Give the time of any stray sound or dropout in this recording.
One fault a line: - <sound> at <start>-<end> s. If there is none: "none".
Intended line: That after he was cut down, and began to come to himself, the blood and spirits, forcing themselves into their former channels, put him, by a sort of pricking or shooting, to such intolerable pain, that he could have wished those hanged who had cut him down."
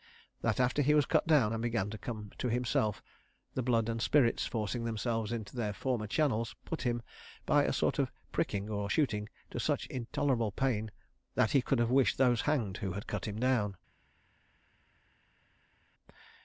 none